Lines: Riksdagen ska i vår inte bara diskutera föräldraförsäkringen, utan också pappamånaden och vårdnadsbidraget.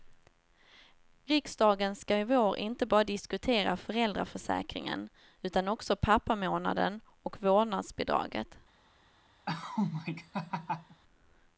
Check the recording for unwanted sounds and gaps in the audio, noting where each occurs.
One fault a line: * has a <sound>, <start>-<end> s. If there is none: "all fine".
* has a laugh, 9.5-11.0 s